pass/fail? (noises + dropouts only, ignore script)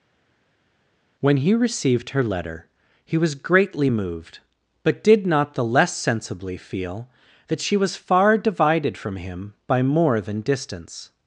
pass